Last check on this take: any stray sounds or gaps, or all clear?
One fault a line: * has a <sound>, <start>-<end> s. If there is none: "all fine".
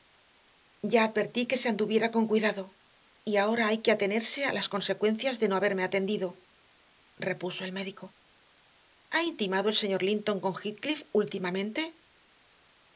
all fine